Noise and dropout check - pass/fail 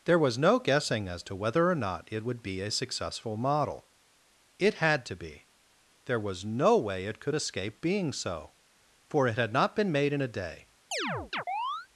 fail